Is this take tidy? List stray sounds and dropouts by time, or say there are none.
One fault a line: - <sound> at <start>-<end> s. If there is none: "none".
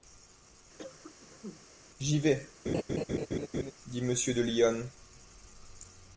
- cough at 0.8-1.7 s
- laugh at 2.7-3.7 s